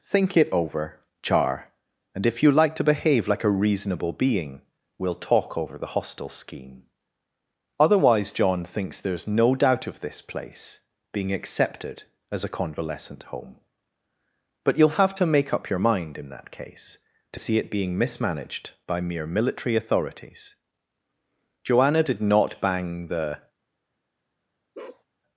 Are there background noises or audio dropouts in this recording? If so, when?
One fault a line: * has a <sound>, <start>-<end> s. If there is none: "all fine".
* has a bark, 24.7-25.0 s